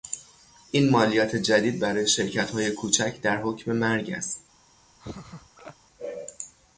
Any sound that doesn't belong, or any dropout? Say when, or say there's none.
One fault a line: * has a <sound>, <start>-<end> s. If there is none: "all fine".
* has a laugh, 5.0-5.8 s